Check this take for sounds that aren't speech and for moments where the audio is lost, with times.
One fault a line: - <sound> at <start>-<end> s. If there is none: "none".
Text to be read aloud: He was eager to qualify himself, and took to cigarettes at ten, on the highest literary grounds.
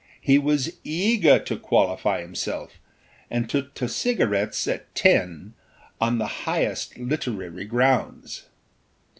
none